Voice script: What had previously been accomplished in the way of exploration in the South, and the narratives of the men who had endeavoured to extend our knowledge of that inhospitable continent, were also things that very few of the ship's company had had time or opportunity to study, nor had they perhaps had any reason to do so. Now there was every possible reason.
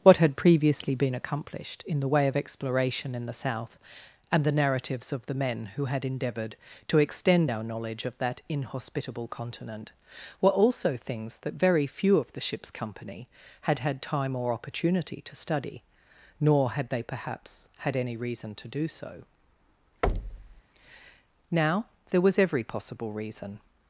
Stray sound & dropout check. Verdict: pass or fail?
fail